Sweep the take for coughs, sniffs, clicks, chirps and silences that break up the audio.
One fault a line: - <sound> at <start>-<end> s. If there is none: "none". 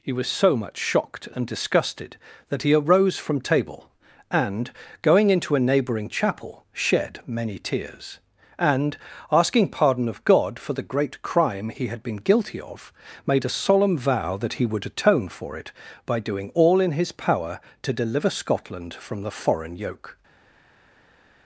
none